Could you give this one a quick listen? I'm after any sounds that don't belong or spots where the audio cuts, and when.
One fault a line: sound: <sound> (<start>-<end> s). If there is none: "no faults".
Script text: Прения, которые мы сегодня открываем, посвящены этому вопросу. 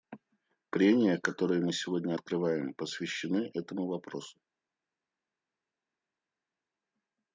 no faults